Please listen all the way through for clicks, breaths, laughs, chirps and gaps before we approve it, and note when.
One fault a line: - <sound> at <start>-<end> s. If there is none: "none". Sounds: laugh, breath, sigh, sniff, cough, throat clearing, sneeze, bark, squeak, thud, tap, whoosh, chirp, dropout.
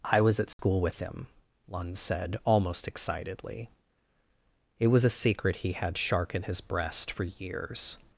- dropout at 0.5-0.6 s